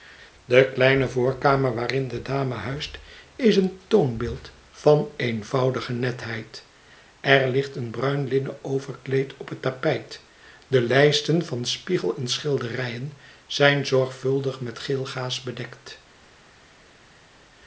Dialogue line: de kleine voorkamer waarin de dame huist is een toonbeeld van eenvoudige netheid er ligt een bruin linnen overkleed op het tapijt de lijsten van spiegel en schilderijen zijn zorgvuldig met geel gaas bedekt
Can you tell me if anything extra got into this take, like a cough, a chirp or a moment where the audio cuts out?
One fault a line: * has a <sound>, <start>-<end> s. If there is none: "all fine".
all fine